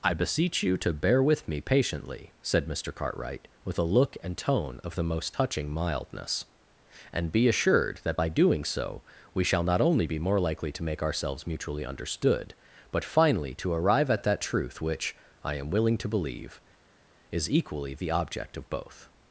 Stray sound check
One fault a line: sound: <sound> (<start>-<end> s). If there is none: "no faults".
no faults